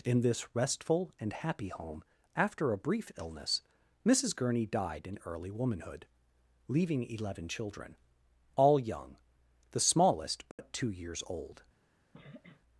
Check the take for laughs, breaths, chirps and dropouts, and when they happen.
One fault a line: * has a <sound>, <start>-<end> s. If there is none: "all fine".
* has a dropout, 10.5-10.6 s
* has a sniff, 12.1-12.6 s